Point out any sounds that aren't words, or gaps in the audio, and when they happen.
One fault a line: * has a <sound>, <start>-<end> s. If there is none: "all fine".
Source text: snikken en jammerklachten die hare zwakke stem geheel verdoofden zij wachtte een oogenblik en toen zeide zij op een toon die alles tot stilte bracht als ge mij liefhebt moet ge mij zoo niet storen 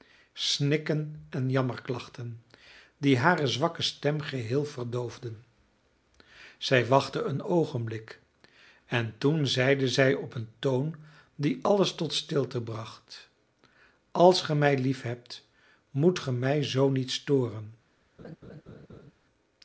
* has a laugh, 18.2-19.1 s